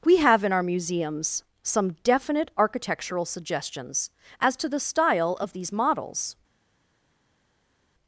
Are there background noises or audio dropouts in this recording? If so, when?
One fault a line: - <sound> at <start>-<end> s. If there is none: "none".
none